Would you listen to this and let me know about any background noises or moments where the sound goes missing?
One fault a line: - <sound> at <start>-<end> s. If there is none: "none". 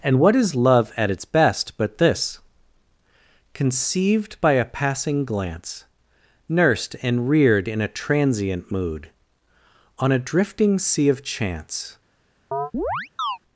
- chirp at 12.5-13.4 s